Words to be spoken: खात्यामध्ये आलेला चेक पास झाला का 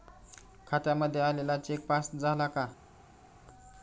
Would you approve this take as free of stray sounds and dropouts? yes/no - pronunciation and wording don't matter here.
yes